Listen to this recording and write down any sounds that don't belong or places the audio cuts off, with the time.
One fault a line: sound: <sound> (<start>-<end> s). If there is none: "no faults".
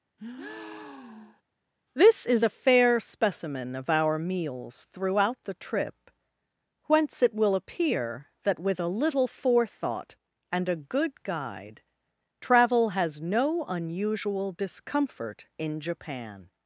sound: breath (0.2-1.4 s)